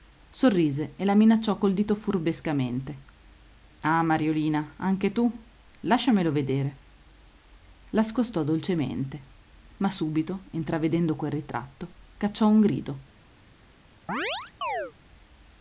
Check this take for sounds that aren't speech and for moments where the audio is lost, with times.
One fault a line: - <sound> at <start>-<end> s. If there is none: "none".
- chirp at 14.1-14.9 s